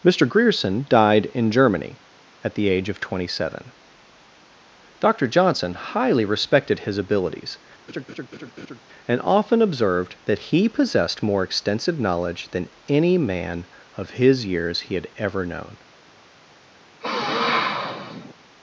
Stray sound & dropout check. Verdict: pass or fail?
fail